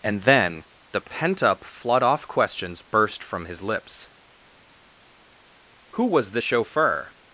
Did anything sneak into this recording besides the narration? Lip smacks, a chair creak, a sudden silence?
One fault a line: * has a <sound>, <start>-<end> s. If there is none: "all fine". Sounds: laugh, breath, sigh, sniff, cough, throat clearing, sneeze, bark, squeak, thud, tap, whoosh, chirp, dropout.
all fine